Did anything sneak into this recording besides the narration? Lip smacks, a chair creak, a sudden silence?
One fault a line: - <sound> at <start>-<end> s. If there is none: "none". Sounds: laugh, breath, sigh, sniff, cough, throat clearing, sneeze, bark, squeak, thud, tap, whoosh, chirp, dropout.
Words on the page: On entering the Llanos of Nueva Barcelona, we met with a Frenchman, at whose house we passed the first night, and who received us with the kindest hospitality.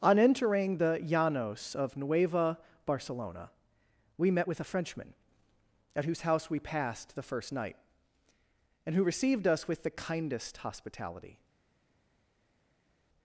none